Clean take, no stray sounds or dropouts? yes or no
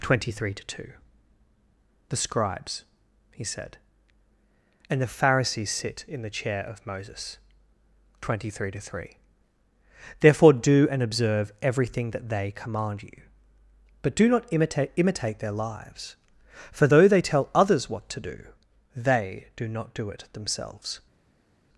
yes